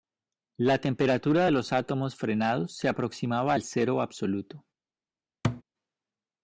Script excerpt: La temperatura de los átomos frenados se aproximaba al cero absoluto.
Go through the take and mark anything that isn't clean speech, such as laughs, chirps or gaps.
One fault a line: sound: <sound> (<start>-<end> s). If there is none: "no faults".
sound: thud (5.4-5.6 s)